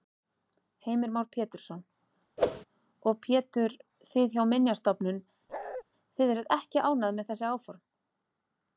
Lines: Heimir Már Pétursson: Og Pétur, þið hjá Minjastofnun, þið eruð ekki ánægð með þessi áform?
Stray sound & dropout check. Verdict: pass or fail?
fail